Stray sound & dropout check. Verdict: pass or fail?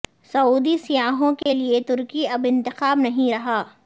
fail